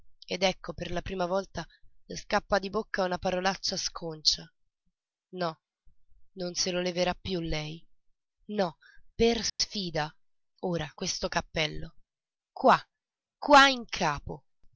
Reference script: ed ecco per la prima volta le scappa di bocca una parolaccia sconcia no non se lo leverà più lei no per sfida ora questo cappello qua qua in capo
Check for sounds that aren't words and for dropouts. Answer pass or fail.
fail